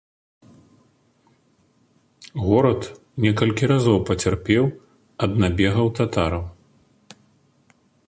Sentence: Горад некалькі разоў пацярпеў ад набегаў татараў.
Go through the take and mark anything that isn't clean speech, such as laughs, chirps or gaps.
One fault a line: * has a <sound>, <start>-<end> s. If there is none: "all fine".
all fine